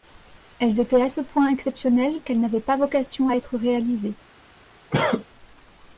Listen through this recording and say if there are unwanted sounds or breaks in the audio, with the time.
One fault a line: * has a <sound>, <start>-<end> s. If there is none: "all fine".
* has a cough, 4.9-5.2 s